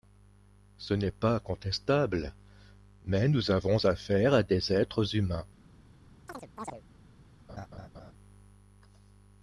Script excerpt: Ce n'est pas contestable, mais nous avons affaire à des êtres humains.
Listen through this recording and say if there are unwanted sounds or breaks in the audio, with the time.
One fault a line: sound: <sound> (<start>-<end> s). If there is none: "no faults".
sound: chirp (6.3-6.8 s)
sound: laugh (7.5-8.1 s)